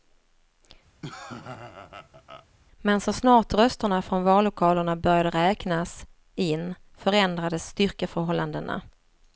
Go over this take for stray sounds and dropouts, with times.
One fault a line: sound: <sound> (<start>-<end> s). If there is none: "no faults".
sound: laugh (1.0-2.5 s)